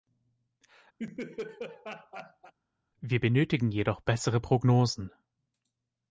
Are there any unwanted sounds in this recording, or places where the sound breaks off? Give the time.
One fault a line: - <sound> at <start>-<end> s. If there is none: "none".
- laugh at 1.0-2.5 s